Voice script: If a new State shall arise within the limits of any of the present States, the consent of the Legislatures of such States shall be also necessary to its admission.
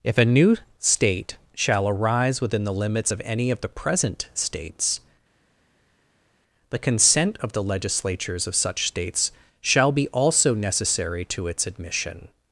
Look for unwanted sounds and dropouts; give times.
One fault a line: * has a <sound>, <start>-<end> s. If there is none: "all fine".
all fine